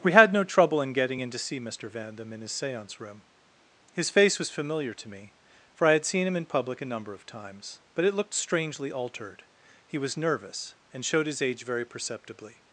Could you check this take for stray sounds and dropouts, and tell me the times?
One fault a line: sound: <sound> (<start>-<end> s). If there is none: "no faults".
no faults